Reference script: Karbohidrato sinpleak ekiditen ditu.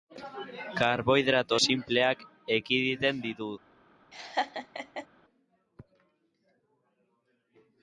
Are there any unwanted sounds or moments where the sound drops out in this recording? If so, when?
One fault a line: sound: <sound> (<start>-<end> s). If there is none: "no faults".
sound: laugh (4.1-5.1 s)